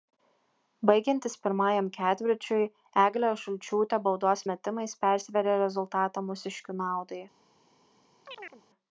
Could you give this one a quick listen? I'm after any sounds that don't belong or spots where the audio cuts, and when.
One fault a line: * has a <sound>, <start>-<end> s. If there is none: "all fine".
* has a chirp, 8.2-8.6 s